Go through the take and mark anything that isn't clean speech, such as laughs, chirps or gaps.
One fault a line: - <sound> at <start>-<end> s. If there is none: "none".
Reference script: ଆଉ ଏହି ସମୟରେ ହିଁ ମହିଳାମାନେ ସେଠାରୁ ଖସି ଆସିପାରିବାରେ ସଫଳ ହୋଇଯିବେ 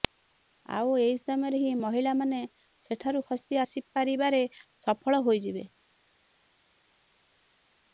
none